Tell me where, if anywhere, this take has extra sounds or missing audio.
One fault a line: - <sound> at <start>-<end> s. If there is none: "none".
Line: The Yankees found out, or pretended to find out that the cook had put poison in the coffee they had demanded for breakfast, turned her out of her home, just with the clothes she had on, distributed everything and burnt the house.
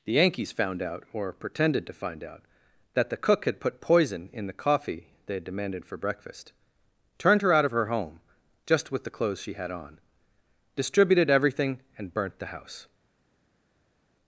none